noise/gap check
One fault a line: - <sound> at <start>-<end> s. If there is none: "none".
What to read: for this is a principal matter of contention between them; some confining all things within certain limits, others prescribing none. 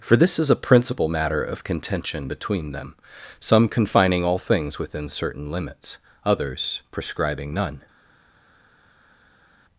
none